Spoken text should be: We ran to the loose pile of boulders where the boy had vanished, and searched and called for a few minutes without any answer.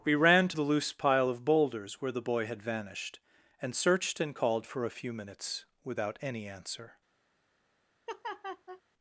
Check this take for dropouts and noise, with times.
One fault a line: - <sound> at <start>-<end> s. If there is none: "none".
- laugh at 8.1-8.8 s